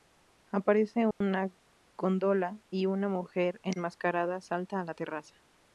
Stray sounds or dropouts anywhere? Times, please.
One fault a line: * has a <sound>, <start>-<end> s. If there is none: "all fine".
* has a dropout, 1.1-1.2 s